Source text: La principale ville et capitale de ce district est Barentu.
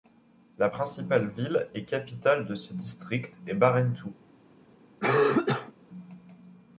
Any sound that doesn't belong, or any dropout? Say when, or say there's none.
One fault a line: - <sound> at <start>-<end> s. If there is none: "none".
- cough at 5.0-5.7 s